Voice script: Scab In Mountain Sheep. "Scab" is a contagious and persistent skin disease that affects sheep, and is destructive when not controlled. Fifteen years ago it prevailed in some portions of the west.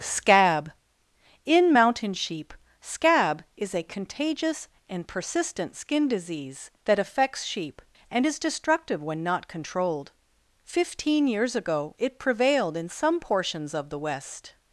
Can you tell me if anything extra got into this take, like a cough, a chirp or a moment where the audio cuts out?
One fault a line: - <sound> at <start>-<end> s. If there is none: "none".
none